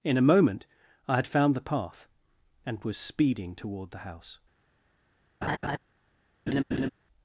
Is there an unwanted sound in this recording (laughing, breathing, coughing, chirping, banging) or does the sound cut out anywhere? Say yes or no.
yes